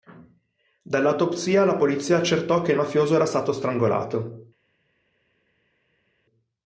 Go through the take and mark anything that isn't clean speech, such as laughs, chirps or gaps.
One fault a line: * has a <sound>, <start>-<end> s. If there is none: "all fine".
all fine